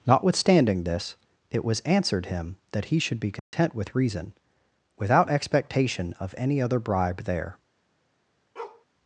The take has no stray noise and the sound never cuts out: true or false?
false